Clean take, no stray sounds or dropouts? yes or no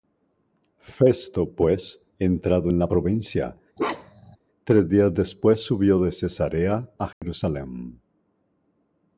no